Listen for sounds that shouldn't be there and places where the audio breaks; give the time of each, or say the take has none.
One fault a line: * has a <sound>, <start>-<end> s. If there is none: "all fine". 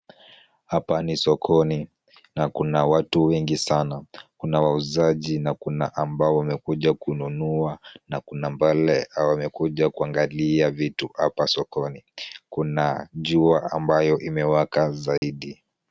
* has a dropout, 15.2-15.2 s